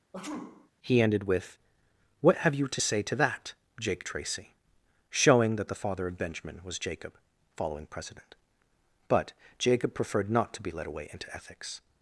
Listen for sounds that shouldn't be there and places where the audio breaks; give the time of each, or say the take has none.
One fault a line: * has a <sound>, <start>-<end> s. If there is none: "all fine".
* has a sneeze, 0.1-0.7 s